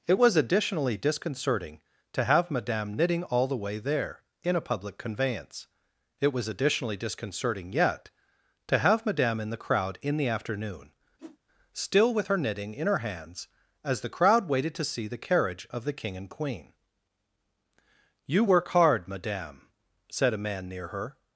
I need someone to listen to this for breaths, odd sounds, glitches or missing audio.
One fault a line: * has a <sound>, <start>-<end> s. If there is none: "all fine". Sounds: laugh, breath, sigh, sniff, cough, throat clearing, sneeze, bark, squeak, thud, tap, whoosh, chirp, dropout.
* has a whoosh, 11.2-11.4 s